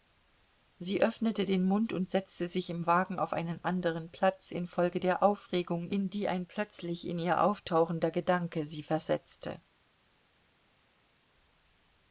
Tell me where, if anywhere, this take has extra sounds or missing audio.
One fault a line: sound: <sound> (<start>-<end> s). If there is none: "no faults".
no faults